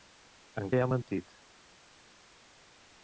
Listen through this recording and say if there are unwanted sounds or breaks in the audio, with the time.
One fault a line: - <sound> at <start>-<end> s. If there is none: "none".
none